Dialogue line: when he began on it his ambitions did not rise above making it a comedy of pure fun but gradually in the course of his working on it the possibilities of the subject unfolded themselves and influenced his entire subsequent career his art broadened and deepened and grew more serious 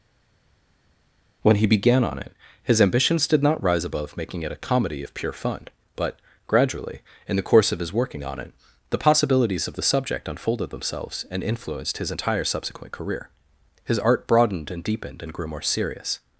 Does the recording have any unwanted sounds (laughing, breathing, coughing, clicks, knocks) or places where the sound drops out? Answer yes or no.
no